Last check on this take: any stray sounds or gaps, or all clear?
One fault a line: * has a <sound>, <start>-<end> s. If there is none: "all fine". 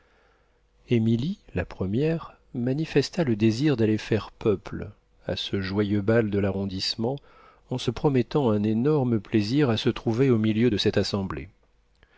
all fine